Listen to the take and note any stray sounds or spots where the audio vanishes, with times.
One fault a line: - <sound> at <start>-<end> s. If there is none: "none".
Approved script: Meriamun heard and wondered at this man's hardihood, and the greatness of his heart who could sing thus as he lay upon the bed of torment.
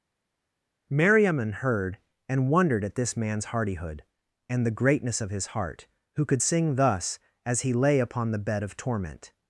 none